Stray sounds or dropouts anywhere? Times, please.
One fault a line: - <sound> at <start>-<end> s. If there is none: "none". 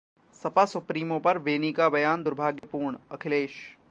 - dropout at 2.6-2.6 s